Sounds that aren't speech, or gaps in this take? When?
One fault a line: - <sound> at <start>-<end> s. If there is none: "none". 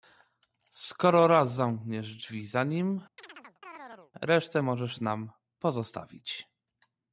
- chirp at 3.2-4.1 s